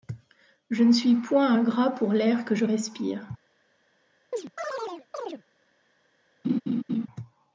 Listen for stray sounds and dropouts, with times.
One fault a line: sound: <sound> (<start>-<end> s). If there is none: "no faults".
sound: chirp (4.3-5.4 s)
sound: laugh (6.4-7.1 s)